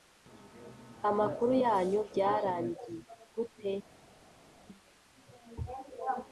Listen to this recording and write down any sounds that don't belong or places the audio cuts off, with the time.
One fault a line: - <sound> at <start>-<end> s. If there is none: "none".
none